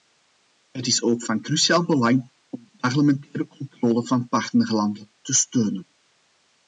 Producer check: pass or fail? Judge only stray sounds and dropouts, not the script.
pass